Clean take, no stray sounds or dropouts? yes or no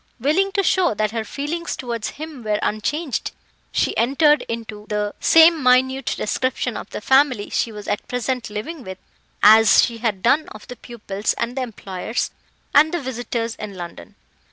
yes